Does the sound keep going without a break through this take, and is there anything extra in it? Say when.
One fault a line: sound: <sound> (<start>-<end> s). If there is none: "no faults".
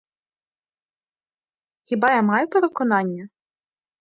no faults